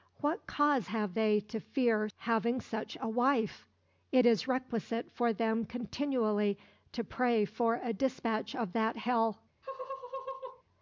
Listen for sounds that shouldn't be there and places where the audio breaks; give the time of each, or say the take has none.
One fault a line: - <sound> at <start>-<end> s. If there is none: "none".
- laugh at 9.6-10.6 s